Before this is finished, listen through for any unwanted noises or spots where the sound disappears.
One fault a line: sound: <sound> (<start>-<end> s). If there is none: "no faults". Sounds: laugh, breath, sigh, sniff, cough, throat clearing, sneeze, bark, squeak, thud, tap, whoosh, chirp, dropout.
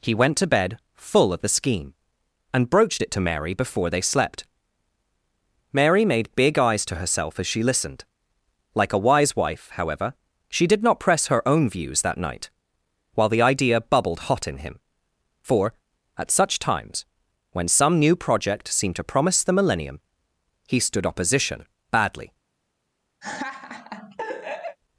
sound: laugh (23.2-24.8 s)